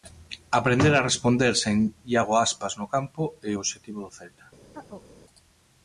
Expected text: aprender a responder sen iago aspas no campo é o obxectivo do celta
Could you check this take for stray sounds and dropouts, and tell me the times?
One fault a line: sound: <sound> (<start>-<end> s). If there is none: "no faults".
sound: chirp (4.7-5.1 s)